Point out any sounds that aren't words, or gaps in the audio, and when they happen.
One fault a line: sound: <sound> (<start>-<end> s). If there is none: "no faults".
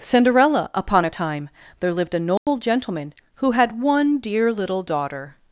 sound: dropout (2.4-2.5 s)